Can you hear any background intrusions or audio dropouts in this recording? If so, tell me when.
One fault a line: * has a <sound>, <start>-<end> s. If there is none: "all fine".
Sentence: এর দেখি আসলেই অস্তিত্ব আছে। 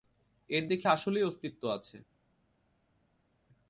all fine